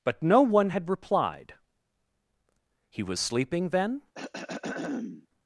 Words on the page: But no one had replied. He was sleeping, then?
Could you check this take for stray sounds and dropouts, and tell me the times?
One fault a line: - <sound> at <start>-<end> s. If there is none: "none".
- throat clearing at 4.1-5.3 s